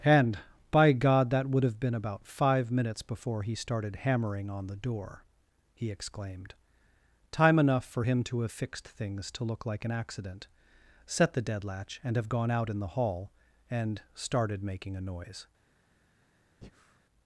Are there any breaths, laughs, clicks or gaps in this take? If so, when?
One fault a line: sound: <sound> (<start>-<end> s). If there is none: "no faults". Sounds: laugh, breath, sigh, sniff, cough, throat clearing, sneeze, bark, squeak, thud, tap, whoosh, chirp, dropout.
sound: breath (16.6-17.0 s)